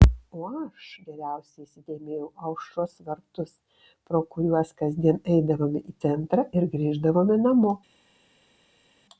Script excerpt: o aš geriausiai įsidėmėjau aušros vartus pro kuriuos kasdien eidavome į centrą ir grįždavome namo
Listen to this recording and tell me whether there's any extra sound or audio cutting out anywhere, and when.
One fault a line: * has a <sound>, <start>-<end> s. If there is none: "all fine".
all fine